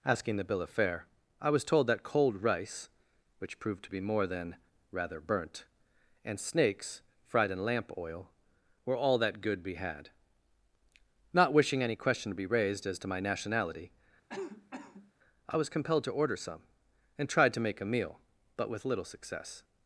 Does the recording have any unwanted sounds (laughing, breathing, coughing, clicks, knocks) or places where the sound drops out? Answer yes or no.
yes